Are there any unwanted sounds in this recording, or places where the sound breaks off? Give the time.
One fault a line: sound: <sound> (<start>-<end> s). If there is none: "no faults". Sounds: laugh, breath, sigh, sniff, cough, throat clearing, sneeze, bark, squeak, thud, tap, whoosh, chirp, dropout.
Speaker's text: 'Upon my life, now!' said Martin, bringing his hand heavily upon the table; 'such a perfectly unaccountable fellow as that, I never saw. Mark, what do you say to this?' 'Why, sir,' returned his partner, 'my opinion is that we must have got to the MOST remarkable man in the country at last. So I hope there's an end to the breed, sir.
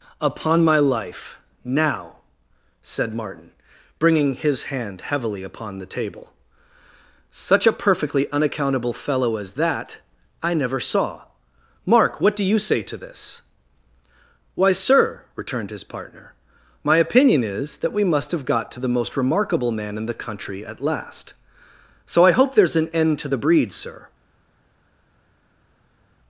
no faults